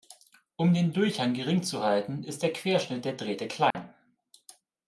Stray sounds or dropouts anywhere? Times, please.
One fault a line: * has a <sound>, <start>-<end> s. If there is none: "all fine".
* has a dropout, 3.7-3.7 s